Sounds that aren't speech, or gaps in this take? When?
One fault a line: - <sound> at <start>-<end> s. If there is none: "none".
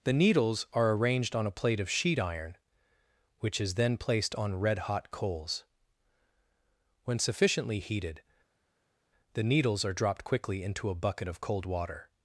none